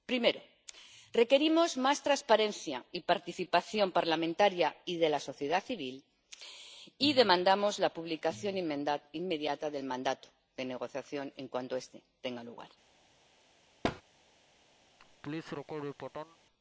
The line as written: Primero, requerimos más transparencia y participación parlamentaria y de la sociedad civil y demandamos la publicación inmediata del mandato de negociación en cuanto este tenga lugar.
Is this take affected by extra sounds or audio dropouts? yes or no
yes